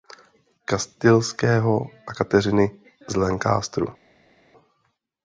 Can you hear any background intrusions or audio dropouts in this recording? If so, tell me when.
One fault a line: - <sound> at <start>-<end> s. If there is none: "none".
none